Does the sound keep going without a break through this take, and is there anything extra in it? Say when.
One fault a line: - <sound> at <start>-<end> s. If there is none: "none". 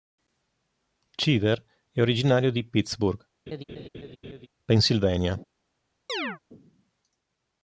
- laugh at 3.5-4.5 s
- chirp at 6.1-6.4 s